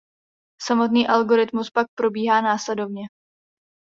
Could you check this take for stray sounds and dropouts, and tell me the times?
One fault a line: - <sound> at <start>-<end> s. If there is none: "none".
none